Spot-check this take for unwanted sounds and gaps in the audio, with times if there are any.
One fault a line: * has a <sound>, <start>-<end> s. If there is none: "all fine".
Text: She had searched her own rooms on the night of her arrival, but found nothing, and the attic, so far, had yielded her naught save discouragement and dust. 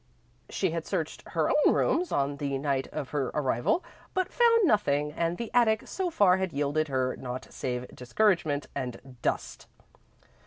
all fine